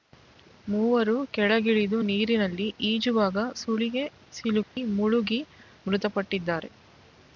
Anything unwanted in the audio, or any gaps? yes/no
yes